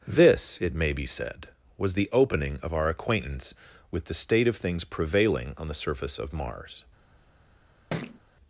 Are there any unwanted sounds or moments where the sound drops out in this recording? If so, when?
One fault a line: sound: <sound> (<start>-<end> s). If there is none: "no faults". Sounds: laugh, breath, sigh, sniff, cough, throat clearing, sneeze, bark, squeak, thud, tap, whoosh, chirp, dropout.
sound: thud (7.9-8.2 s)